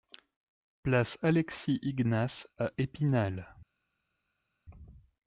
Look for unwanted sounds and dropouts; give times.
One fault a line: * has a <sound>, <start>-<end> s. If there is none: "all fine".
all fine